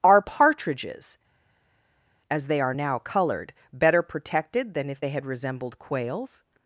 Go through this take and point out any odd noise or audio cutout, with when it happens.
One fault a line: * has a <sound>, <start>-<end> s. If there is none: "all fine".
all fine